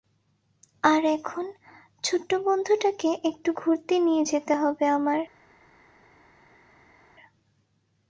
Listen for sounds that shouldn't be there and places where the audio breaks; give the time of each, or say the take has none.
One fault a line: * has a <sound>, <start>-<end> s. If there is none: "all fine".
all fine